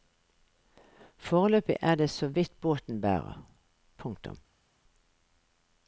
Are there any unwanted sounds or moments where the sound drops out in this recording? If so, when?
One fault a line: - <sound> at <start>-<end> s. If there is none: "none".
none